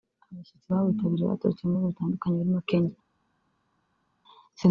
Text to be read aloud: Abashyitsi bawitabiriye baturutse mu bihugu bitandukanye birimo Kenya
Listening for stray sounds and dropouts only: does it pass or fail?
pass